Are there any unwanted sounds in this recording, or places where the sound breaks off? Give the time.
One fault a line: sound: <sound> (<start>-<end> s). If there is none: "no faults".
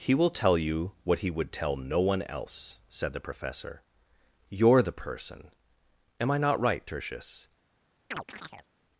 sound: chirp (8.1-8.7 s)